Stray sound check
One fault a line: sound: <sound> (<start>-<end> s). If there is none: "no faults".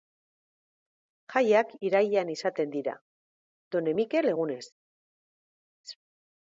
no faults